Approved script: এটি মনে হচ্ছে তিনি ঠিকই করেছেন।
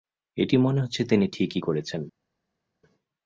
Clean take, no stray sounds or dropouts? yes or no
yes